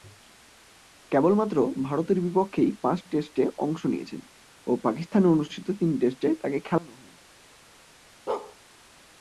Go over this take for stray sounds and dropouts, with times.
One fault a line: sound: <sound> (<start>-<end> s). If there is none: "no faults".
sound: bark (8.3-8.6 s)